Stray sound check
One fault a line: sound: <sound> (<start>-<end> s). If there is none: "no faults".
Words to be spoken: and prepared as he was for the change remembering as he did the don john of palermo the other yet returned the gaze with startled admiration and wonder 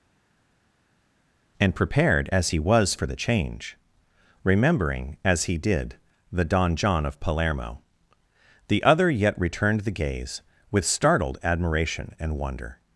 no faults